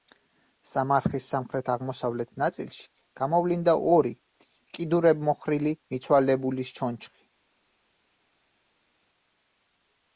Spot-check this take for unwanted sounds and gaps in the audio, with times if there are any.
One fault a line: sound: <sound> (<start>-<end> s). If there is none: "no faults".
no faults